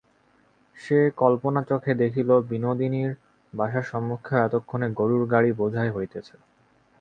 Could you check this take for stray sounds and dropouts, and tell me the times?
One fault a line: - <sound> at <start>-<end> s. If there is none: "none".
none